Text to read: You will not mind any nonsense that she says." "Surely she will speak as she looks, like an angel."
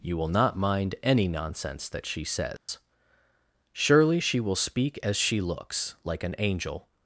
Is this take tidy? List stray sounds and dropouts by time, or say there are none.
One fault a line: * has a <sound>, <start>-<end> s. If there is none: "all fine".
* has a dropout, 2.6-2.7 s